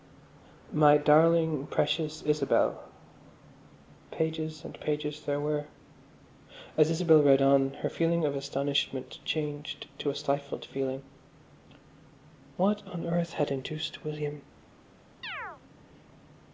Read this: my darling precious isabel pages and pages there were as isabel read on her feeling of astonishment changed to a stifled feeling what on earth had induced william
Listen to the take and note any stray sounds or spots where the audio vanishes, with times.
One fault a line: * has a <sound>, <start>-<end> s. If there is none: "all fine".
* has a chirp, 15.2-15.6 s